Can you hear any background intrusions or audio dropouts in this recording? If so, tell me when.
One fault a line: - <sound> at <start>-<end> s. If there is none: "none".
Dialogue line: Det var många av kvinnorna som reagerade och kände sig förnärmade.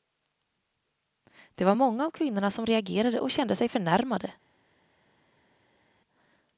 none